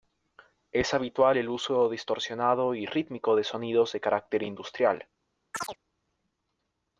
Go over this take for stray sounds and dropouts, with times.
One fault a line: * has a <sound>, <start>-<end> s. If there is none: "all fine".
* has a chirp, 5.5-5.8 s